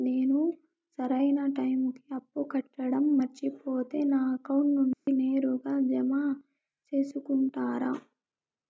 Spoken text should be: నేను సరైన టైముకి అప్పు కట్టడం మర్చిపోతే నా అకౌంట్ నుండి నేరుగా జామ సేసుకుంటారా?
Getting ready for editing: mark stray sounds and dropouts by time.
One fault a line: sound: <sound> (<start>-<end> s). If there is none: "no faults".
sound: dropout (4.9-5.1 s)